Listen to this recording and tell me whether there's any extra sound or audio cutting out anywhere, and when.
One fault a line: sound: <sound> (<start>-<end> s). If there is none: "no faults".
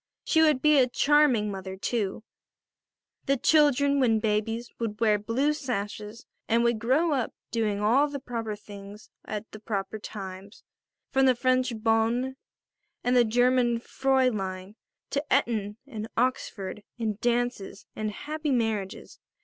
no faults